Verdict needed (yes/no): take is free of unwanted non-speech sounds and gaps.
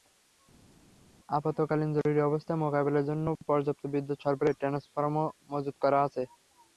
yes